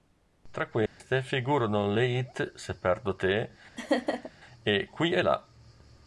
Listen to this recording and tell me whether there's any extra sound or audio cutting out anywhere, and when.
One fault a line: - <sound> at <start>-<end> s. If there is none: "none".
- dropout at 0.9-1.0 s
- laugh at 3.8-4.3 s